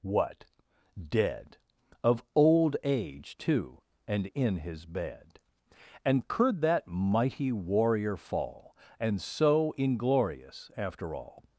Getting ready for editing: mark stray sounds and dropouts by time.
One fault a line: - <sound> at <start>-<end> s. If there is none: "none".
none